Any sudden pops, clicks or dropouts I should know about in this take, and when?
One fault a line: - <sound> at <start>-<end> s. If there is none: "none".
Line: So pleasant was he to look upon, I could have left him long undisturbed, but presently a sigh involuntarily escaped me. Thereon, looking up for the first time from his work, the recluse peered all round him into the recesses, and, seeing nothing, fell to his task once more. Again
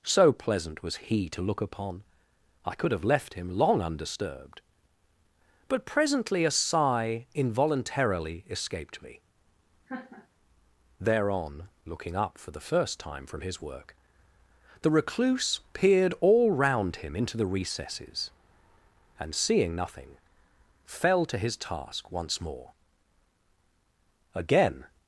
- laugh at 9.9-10.3 s